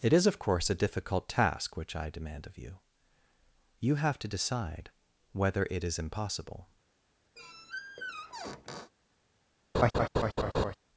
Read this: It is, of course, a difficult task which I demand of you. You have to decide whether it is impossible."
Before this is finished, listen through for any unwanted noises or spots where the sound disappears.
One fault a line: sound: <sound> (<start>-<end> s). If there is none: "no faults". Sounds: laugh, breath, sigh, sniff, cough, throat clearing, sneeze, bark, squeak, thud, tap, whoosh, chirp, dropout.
sound: squeak (7.4-8.9 s)
sound: laugh (9.7-10.7 s)